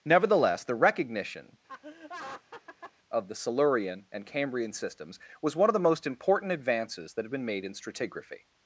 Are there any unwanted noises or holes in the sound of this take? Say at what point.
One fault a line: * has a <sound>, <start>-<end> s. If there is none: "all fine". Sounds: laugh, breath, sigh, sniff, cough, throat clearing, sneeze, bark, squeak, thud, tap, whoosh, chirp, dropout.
* has a laugh, 1.7-2.9 s